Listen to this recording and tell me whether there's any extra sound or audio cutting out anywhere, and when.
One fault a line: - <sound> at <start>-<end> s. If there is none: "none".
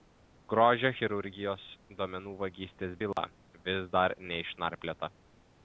- dropout at 3.1-3.2 s